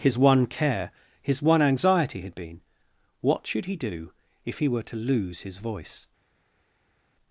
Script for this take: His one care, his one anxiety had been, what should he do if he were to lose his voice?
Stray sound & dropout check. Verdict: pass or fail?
pass